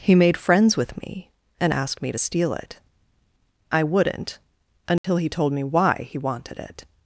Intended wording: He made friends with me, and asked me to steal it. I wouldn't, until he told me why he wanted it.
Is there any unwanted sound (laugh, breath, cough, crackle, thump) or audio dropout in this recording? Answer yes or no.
yes